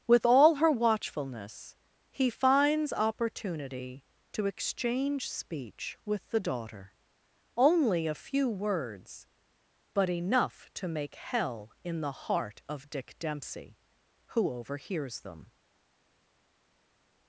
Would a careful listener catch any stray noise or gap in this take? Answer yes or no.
no